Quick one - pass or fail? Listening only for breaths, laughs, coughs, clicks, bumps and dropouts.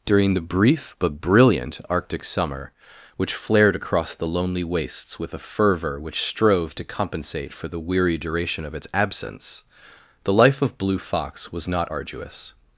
pass